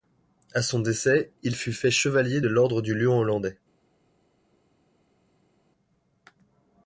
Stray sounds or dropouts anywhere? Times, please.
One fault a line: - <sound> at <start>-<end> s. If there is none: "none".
none